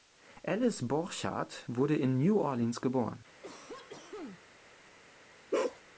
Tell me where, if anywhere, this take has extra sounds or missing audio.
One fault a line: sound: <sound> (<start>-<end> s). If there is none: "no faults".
sound: cough (3.4-4.5 s)
sound: bark (5.5-5.8 s)